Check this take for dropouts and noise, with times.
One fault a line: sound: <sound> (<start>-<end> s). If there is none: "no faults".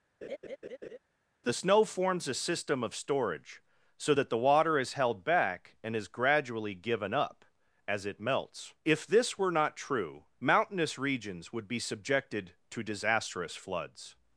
sound: laugh (0.2-1.0 s)